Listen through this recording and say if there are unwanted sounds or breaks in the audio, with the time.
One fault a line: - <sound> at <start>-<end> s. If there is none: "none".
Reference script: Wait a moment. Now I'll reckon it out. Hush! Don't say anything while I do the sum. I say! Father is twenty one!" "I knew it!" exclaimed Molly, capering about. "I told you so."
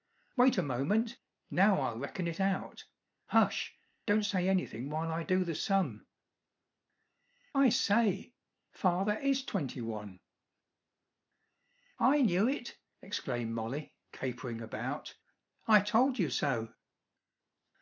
none